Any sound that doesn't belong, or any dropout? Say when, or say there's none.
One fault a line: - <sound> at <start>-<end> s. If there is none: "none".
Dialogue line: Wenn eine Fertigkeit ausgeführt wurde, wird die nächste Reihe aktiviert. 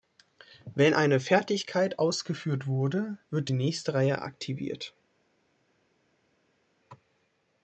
none